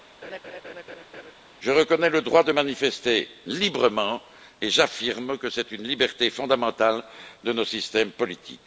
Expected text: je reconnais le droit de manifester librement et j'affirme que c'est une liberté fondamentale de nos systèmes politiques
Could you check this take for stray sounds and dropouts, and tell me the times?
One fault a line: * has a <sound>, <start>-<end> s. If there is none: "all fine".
* has a laugh, 0.2-1.3 s